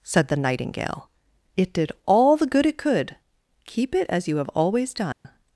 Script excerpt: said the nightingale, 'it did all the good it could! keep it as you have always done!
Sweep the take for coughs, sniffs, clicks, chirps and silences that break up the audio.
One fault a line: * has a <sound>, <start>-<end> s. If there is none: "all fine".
* has a dropout, 5.1-5.2 s